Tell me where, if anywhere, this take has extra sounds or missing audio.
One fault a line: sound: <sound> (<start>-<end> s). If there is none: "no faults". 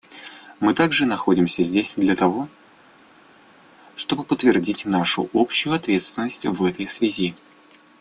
no faults